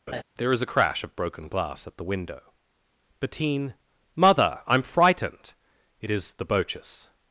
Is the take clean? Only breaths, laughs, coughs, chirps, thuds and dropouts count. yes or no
no